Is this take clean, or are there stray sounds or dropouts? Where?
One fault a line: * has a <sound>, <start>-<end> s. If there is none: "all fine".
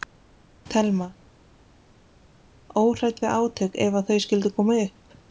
all fine